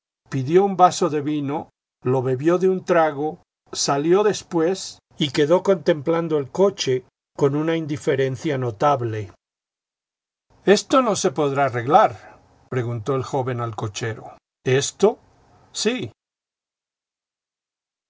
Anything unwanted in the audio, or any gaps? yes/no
no